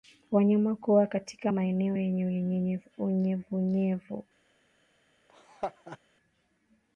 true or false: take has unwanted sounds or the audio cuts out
true